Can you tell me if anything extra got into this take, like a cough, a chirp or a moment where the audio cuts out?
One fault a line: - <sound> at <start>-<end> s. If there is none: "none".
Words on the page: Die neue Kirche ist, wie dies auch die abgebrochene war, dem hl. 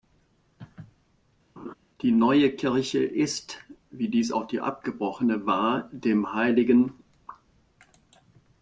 - laugh at 1.6-1.7 s